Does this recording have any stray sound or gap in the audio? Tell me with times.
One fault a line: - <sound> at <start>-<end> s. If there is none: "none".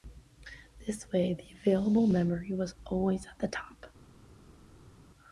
none